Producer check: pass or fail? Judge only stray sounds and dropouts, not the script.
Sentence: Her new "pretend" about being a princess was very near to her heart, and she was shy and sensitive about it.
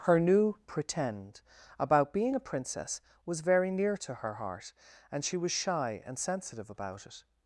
pass